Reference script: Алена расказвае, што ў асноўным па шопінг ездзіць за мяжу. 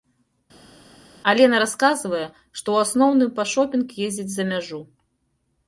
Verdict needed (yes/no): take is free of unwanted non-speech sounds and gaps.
yes